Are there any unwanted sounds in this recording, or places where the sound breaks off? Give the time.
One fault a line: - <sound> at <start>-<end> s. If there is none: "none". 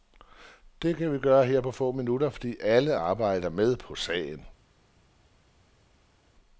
none